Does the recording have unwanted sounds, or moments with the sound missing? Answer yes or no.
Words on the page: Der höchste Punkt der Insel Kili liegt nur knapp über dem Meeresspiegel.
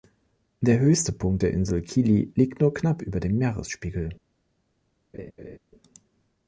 yes